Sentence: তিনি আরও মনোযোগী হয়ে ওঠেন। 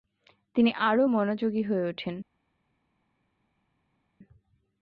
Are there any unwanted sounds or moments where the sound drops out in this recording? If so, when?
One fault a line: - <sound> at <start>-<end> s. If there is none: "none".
none